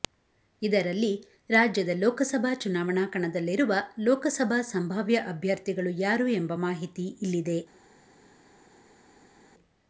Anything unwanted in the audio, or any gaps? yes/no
no